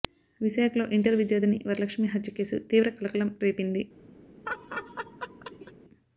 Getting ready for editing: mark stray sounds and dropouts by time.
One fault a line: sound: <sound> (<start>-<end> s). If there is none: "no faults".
sound: laugh (4.5-5.7 s)